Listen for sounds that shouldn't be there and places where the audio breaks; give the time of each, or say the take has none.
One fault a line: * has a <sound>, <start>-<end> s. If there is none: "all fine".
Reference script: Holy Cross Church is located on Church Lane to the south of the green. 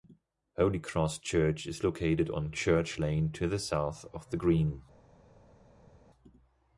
all fine